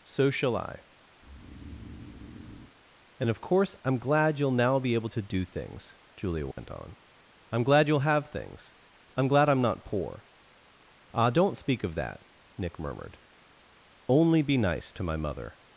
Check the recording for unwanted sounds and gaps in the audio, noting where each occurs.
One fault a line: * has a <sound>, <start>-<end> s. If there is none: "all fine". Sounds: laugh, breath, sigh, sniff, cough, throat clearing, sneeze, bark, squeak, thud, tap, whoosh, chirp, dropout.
* has a breath, 1.2-2.7 s
* has a dropout, 6.5-6.6 s